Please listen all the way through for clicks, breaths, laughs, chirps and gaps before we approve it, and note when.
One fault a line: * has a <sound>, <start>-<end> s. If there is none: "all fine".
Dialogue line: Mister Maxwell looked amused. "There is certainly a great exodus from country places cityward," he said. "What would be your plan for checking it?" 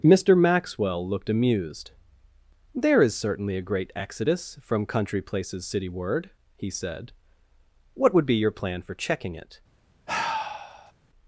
* has a sigh, 10.1-10.9 s